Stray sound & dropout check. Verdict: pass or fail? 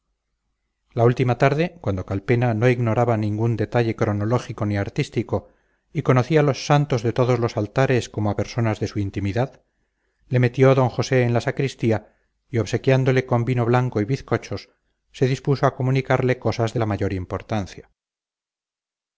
pass